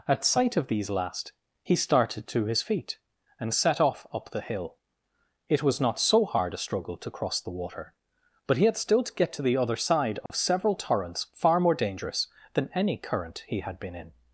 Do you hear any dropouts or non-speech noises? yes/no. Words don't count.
yes